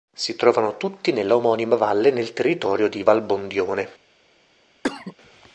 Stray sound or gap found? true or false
true